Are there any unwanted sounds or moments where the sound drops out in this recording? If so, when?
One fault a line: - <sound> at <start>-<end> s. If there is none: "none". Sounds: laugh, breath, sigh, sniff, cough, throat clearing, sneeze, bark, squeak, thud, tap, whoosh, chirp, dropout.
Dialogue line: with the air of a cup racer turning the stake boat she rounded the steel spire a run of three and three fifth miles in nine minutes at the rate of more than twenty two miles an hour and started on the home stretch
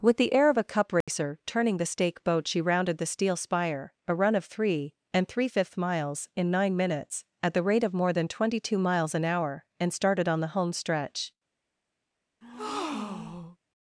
- dropout at 1.0-1.1 s
- breath at 12.4-13.6 s